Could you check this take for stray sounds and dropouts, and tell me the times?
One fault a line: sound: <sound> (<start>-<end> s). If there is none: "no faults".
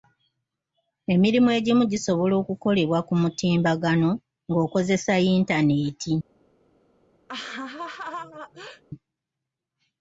sound: laugh (7.3-8.8 s)